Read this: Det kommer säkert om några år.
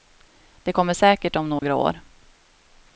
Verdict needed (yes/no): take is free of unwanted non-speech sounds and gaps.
no